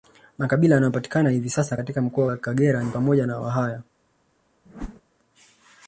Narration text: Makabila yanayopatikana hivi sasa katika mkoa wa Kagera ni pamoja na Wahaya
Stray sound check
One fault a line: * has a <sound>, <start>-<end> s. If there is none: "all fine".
* has a whoosh, 4.7-5.0 s